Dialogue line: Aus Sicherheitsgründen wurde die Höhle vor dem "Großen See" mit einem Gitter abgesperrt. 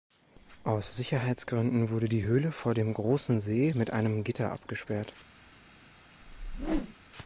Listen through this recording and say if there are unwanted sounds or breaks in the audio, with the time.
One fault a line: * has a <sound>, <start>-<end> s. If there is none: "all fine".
* has a whoosh, 6.2-7.0 s